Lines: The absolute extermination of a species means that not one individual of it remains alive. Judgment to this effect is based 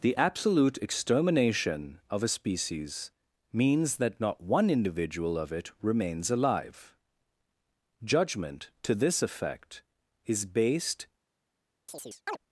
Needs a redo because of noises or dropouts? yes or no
yes